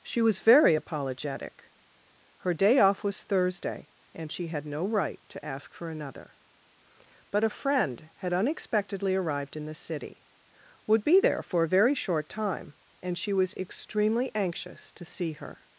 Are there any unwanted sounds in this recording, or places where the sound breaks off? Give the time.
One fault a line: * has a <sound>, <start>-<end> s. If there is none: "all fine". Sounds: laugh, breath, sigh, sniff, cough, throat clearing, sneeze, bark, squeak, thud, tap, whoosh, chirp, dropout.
all fine